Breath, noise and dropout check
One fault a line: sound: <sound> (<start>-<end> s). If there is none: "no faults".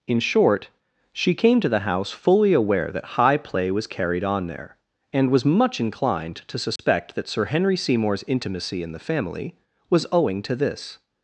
sound: dropout (6.8-6.8 s)